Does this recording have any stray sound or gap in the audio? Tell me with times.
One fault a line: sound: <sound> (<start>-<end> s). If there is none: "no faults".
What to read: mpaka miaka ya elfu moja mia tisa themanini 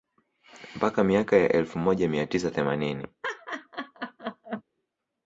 sound: laugh (3.2-4.6 s)